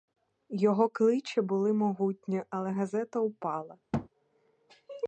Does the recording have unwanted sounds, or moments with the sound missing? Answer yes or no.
yes